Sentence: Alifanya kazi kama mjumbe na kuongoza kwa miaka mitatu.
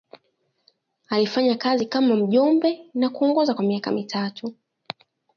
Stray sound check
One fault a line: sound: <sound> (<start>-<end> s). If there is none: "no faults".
no faults